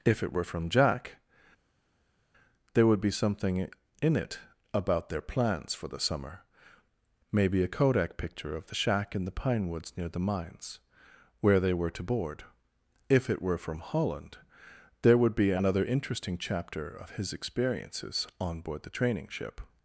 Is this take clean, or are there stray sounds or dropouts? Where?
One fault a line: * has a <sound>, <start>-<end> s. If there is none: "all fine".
all fine